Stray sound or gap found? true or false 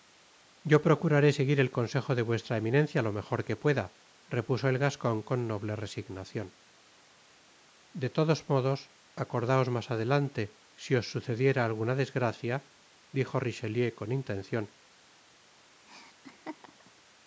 true